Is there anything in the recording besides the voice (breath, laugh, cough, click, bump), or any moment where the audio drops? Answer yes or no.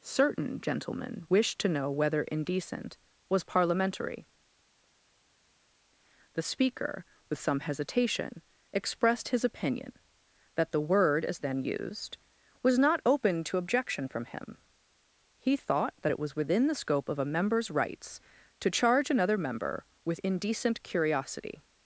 no